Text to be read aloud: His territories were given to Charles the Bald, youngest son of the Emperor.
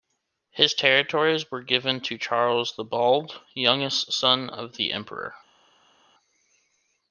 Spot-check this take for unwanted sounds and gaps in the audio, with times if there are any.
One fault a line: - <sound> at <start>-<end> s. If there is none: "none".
none